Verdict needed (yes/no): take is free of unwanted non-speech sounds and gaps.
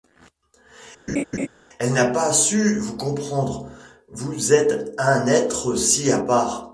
no